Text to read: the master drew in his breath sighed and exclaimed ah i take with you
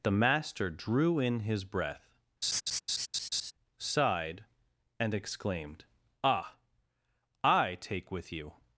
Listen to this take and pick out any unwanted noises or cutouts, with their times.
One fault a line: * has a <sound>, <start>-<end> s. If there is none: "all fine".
* has a laugh, 2.4-3.5 s